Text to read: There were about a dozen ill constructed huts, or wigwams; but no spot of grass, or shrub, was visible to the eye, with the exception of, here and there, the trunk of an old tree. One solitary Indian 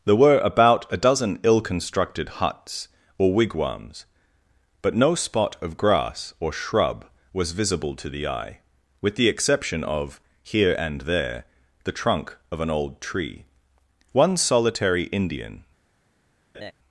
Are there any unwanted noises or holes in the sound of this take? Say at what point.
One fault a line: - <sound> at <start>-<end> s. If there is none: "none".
- laugh at 16.5-16.7 s